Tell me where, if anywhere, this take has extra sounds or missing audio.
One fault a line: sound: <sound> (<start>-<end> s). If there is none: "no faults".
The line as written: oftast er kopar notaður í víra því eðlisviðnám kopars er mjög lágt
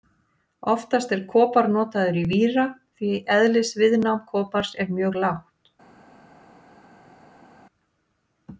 no faults